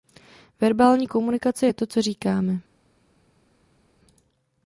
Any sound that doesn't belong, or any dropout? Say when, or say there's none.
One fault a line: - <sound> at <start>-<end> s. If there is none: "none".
none